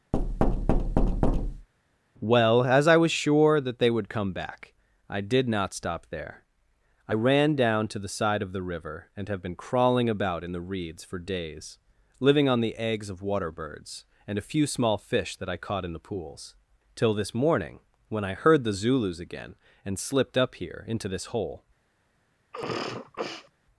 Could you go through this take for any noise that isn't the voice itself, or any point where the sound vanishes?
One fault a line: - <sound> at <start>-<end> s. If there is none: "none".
- thud at 0.1-1.7 s
- sneeze at 22.5-23.5 s